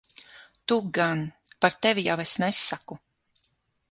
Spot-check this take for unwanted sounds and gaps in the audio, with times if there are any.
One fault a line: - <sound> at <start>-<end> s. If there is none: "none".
none